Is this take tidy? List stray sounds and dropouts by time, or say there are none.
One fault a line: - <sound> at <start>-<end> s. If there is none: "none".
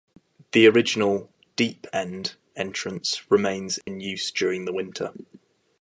- dropout at 3.8-3.9 s